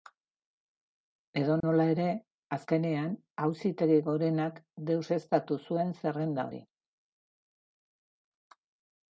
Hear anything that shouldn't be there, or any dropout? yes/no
yes